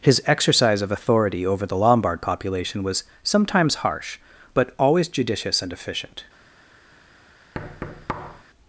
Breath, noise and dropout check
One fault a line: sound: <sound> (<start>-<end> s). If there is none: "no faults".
sound: thud (7.5-8.4 s)